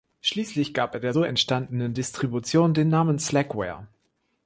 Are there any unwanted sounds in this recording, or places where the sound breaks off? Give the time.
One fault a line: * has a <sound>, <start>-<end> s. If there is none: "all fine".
all fine